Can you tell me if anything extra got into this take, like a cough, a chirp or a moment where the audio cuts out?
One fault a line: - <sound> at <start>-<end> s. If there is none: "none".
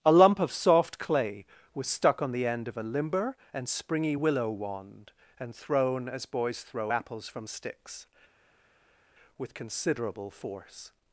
none